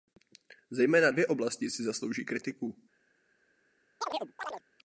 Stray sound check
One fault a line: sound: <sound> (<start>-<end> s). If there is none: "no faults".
sound: chirp (4.0-4.6 s)